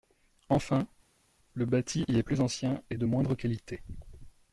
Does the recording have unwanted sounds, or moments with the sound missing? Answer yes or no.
no